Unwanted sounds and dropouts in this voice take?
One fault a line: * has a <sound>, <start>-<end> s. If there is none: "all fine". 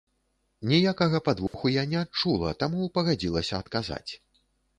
* has a dropout, 1.5-1.5 s